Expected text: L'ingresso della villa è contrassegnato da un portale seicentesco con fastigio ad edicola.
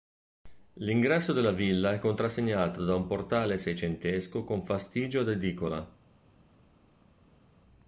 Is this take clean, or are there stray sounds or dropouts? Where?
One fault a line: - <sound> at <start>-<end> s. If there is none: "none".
none